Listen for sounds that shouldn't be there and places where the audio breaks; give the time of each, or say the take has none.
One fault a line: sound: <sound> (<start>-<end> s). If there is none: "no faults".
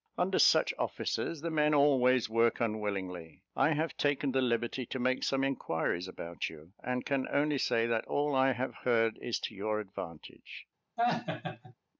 sound: laugh (11.0-11.7 s)